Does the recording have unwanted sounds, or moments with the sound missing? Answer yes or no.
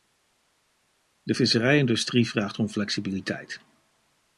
no